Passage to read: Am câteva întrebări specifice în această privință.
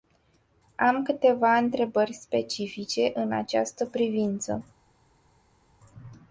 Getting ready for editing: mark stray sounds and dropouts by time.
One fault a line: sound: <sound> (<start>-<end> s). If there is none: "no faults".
no faults